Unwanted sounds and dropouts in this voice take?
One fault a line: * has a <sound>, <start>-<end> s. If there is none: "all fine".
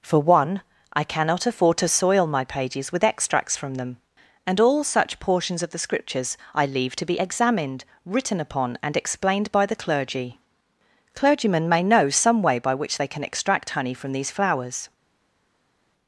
all fine